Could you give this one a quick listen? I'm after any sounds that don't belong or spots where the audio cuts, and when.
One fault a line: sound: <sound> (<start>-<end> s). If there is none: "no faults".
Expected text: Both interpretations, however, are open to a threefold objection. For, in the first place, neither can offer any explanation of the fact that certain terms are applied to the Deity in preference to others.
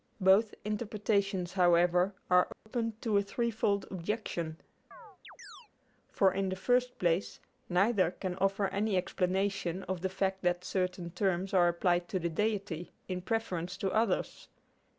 sound: dropout (2.5-2.7 s)
sound: chirp (4.9-5.7 s)